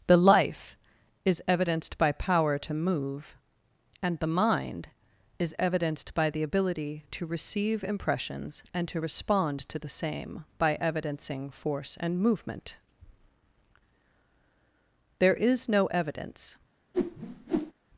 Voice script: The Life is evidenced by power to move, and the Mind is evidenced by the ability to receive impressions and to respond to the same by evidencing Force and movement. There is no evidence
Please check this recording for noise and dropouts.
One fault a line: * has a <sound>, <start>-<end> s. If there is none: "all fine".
* has a whoosh, 16.9-17.7 s